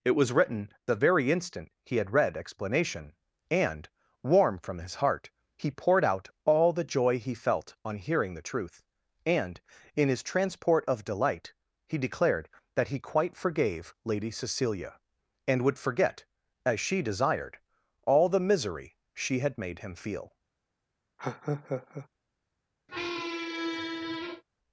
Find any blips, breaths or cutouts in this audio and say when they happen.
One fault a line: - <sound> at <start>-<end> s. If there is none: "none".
- laugh at 21.2-22.1 s
- squeak at 22.9-24.4 s